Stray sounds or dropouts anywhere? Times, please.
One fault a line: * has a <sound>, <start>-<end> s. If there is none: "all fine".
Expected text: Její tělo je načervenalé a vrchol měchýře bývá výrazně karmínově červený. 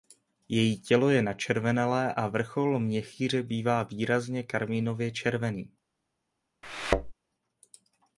* has a thud, 6.6-7.1 s